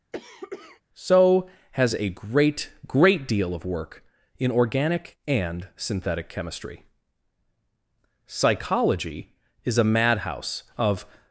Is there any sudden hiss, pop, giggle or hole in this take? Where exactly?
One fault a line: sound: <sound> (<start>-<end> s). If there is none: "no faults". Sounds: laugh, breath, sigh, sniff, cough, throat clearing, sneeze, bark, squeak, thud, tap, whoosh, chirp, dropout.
sound: cough (0.1-0.8 s)